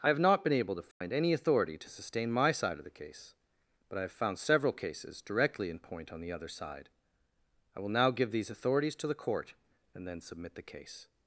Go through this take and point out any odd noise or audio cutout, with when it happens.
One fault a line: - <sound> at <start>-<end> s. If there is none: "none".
- dropout at 0.9-1.0 s